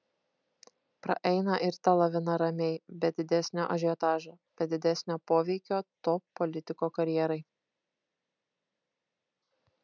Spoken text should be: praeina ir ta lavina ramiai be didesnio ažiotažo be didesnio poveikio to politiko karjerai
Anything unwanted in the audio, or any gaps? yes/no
no